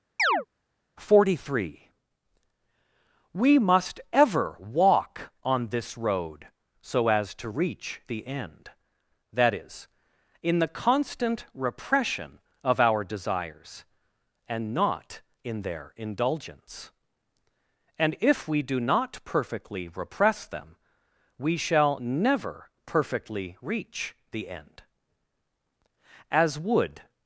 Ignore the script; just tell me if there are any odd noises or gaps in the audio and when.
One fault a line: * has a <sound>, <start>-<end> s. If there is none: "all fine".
* has a chirp, 0.2-0.5 s